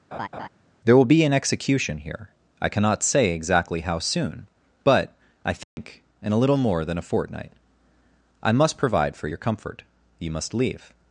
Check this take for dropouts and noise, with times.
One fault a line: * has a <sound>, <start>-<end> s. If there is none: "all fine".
* has a laugh, 0.1-0.5 s
* has a dropout, 5.6-5.8 s